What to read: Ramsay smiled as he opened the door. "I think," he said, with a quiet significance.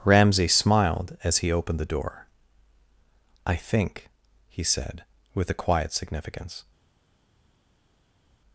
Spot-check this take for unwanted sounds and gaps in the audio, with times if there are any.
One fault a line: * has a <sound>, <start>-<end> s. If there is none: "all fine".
all fine